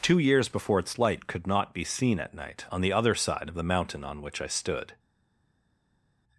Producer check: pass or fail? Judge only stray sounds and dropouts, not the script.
pass